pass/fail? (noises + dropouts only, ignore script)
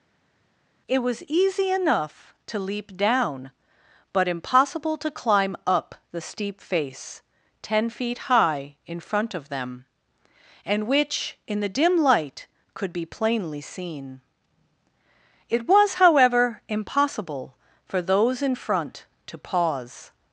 pass